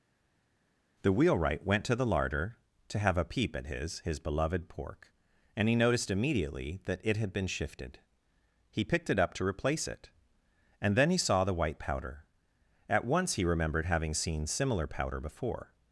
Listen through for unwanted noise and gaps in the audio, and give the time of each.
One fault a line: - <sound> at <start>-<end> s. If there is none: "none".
none